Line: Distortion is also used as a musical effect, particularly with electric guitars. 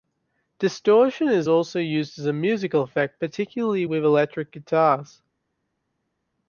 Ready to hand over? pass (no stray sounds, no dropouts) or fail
pass